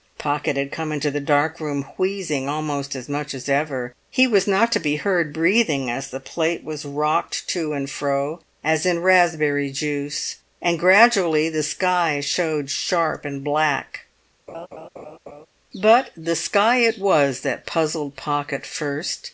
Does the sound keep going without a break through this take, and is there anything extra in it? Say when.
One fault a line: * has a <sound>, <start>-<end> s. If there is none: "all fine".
* has a laugh, 14.5-15.5 s